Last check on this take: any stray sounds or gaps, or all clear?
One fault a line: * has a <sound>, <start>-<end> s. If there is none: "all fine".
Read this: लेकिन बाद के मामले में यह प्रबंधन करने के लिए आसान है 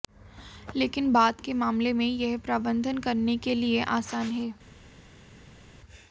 all fine